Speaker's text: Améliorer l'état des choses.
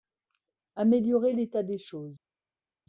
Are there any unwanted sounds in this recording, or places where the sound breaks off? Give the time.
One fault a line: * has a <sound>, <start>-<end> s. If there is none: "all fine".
all fine